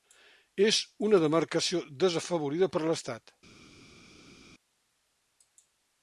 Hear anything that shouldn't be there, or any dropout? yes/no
no